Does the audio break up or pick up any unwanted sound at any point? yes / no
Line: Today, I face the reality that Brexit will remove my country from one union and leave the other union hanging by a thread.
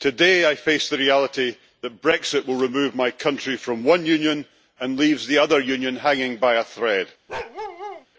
yes